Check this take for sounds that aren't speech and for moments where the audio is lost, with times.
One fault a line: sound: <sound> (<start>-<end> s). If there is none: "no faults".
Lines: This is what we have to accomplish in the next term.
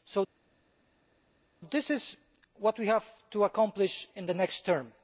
no faults